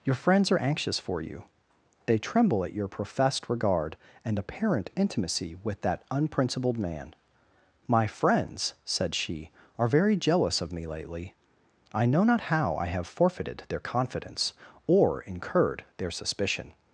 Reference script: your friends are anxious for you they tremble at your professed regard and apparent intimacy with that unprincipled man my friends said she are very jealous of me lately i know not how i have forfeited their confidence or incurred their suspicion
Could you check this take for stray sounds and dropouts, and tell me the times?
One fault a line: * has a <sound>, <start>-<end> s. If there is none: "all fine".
all fine